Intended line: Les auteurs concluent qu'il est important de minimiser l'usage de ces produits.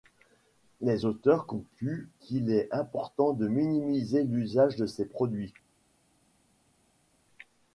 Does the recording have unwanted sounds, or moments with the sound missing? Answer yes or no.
no